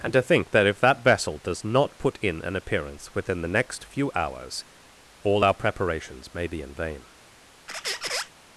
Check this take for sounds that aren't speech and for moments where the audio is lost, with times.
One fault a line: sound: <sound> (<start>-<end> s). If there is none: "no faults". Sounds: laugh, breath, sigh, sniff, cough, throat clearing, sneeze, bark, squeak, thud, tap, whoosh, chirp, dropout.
sound: squeak (7.7-8.3 s)